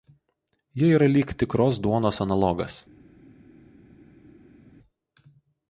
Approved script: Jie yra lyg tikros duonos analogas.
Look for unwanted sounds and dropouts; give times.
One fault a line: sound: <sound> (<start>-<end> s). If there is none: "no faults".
no faults